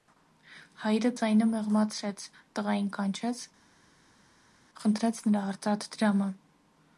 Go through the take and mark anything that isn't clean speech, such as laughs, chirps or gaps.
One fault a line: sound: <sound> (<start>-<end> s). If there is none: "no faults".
no faults